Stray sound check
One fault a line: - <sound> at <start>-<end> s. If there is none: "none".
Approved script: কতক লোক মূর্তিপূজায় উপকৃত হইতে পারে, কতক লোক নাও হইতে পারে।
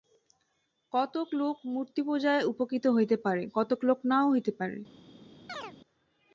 - chirp at 5.5-5.7 s